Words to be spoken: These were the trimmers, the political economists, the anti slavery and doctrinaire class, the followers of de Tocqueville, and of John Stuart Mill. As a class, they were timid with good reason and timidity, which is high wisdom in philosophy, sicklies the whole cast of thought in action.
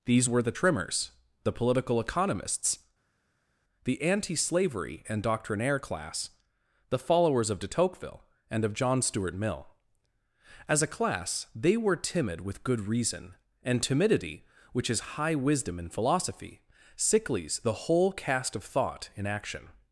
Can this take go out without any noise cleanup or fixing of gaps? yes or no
yes